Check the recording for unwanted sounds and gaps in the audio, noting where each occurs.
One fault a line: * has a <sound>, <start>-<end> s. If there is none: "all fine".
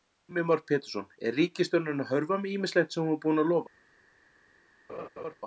* has a laugh, 4.9-5.4 s